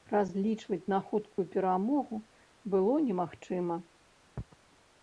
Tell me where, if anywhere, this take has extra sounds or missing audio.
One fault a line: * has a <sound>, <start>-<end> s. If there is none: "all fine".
* has a dropout, 1.3-1.4 s